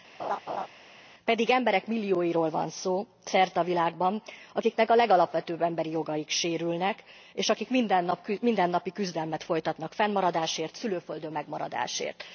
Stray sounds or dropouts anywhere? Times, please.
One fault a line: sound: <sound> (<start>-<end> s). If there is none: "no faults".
sound: laugh (0.2-0.7 s)